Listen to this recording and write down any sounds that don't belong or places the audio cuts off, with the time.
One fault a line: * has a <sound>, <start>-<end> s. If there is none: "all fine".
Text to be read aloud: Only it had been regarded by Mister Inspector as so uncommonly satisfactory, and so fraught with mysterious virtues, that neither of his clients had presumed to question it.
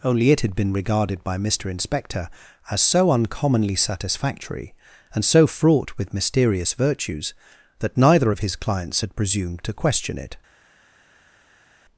all fine